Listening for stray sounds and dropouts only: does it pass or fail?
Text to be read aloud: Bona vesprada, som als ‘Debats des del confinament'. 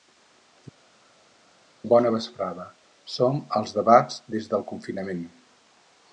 pass